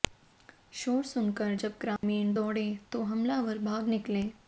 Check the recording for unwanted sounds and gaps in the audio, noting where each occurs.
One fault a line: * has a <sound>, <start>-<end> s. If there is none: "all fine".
* has a dropout, 2.0-2.0 s